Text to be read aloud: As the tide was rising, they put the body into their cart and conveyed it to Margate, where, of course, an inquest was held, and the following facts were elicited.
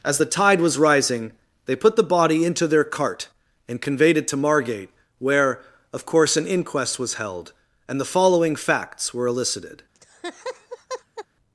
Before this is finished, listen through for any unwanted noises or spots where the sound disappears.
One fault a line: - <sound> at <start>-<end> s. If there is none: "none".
- laugh at 9.9-11.3 s